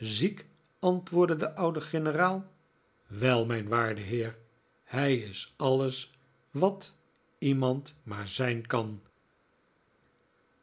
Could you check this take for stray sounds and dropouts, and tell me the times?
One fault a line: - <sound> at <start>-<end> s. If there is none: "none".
none